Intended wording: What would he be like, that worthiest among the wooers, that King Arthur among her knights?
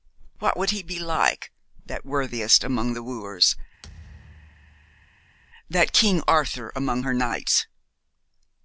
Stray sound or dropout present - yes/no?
yes